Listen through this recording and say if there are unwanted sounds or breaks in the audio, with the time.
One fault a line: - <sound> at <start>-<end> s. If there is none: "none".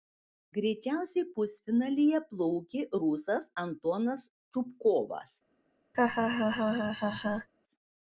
- laugh at 5.9-7.5 s